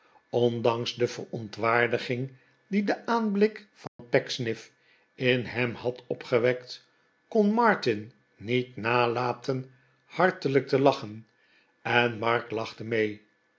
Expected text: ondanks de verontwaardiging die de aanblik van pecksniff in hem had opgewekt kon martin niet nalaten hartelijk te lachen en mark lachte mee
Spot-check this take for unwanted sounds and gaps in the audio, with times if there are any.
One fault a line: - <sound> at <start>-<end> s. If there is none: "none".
- dropout at 3.9-4.0 s